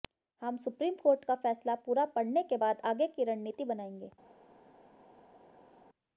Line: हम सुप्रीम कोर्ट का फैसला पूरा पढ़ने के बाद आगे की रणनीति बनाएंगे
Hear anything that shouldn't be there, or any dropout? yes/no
no